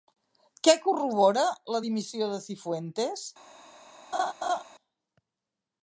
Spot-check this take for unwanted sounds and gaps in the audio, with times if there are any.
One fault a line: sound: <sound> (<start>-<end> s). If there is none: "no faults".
sound: laugh (4.1-4.6 s)